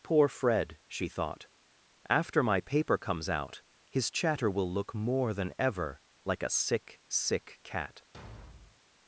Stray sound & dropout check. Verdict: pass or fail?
fail